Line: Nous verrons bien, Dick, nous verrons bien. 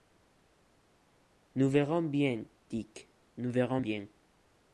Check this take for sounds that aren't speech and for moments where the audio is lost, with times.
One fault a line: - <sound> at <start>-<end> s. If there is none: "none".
none